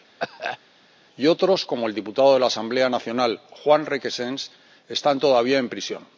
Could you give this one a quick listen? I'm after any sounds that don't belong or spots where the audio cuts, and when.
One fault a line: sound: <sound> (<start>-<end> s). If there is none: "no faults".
sound: cough (0.2-0.6 s)